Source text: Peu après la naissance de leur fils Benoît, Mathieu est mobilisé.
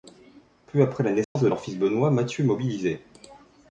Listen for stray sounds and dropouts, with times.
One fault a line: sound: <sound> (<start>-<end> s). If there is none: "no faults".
sound: dropout (1.2-1.4 s)